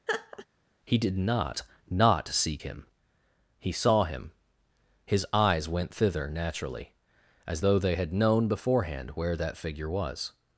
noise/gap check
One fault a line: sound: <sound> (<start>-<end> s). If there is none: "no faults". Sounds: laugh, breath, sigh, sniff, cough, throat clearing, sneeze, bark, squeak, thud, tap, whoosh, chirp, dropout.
sound: laugh (0.1-0.5 s)